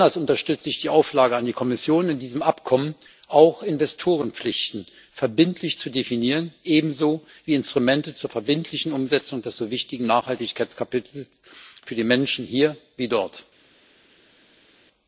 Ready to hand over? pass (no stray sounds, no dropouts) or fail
pass